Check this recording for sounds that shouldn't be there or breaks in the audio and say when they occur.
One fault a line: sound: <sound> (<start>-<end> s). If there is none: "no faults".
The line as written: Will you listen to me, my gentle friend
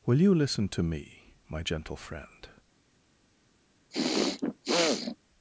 sound: throat clearing (3.9-5.2 s)